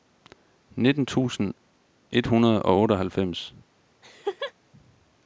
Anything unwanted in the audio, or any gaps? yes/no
yes